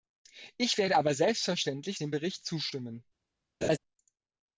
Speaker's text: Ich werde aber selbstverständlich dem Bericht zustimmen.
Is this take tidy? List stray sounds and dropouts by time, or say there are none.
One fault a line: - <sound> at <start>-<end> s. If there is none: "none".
- laugh at 3.6-3.8 s